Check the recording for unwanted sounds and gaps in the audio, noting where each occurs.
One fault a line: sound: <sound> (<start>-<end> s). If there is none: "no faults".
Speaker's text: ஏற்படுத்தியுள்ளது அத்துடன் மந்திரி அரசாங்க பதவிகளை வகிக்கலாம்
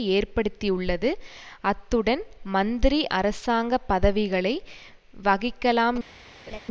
sound: laugh (6.5-6.6 s)